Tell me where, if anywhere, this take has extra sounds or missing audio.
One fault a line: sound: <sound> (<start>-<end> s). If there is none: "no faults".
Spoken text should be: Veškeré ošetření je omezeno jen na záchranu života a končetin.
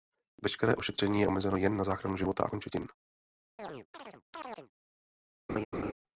sound: chirp (3.6-4.7 s)
sound: laugh (5.5-5.9 s)